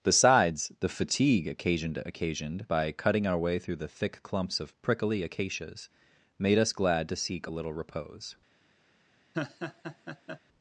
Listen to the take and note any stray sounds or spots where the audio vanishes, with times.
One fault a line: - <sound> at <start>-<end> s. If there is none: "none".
- laugh at 9.3-10.4 s